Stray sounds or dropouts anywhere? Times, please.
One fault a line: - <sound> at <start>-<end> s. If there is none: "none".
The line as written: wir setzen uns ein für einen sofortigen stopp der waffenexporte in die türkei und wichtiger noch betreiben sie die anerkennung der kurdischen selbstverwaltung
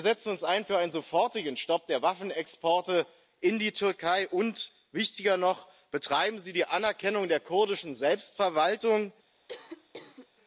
- cough at 9.5-10.3 s